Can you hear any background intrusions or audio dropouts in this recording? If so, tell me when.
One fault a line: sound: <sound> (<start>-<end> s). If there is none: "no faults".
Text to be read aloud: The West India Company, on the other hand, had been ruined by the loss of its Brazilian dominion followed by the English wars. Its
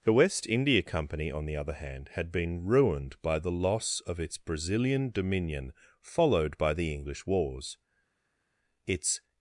no faults